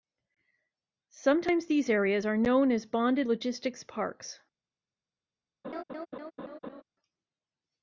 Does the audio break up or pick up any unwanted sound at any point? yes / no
yes